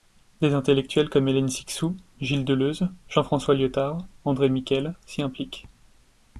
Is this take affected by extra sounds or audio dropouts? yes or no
no